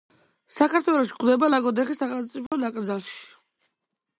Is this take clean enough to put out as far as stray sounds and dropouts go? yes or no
no